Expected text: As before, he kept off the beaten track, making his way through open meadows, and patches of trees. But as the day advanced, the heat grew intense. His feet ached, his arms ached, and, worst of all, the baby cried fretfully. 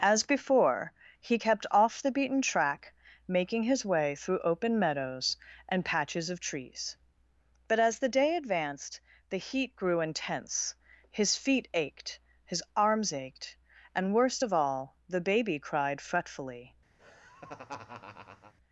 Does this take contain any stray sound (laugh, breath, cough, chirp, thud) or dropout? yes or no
yes